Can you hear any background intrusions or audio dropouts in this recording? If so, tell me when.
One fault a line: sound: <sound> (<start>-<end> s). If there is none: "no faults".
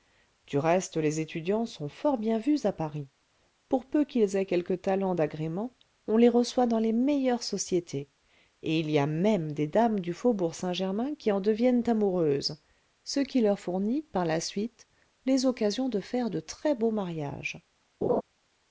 sound: laugh (18.0-18.2 s)